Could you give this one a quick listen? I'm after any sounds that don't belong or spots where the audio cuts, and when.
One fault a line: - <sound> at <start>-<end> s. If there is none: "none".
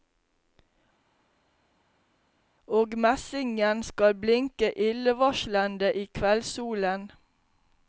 none